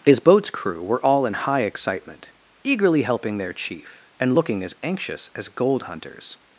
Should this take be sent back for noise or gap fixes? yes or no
no